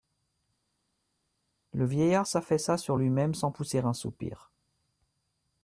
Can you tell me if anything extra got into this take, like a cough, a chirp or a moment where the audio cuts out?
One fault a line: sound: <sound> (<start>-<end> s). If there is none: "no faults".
no faults